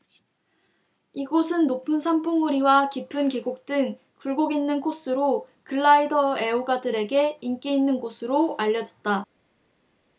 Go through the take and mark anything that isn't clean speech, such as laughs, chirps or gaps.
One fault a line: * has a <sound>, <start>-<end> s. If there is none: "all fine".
all fine